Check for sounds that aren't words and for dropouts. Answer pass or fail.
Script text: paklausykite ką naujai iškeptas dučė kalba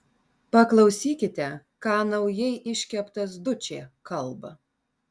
pass